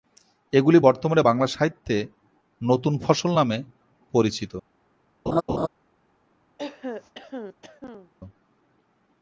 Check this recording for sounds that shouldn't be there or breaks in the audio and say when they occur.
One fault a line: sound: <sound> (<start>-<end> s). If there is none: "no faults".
sound: laugh (5.3-5.7 s)
sound: throat clearing (6.6-8.1 s)